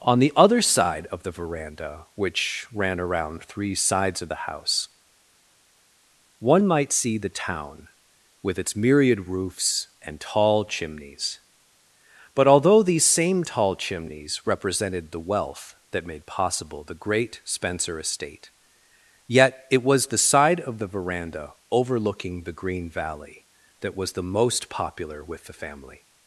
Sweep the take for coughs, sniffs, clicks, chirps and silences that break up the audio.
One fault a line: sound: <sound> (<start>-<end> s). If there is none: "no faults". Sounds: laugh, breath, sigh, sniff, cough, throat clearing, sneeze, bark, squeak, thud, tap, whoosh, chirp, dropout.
no faults